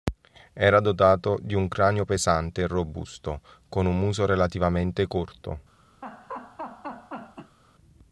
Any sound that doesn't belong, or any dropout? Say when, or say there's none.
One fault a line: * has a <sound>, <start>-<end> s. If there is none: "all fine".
* has a laugh, 6.0-7.6 s